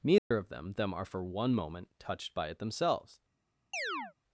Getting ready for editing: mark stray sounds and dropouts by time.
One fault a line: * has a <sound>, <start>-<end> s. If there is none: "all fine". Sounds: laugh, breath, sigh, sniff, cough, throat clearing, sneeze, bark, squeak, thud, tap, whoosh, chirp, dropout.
* has a dropout, 0.2-0.3 s
* has a chirp, 3.7-4.1 s